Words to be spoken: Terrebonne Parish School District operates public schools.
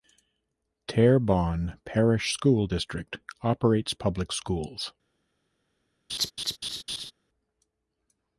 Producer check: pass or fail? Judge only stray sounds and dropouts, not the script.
fail